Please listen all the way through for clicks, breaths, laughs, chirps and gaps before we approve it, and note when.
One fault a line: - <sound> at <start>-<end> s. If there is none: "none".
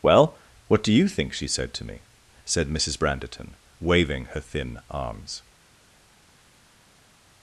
none